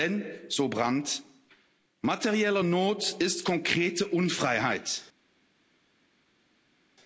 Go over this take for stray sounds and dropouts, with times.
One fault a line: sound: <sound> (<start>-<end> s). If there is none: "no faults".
no faults